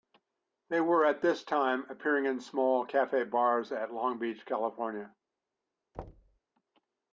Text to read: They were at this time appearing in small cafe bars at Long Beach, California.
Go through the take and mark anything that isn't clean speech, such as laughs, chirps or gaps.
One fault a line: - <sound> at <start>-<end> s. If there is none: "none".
- thud at 5.9-6.4 s